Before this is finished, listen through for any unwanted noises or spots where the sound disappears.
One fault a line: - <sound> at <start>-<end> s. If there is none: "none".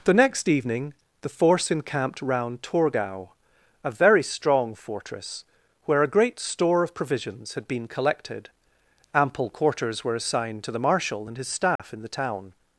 - dropout at 11.8-11.8 s